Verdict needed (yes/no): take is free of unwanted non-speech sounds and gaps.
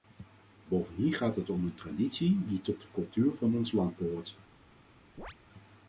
no